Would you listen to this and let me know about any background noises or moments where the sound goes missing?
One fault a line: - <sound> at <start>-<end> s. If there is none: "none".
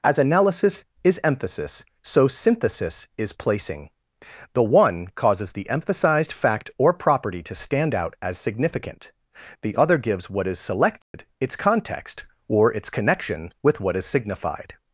- dropout at 11.0-11.1 s